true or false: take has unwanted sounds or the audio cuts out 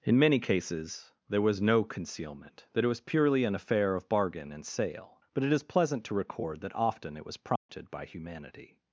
true